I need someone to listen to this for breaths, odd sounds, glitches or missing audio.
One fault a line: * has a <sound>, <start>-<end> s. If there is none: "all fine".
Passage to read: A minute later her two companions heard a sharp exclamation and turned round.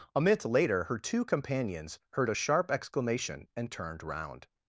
all fine